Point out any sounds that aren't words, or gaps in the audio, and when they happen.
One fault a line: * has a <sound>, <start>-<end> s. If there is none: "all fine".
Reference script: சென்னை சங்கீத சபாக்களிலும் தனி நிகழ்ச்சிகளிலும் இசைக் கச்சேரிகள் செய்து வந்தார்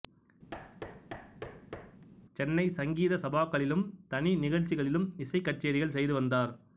* has a thud, 0.5-2.1 s